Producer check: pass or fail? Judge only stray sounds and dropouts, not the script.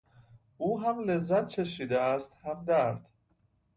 pass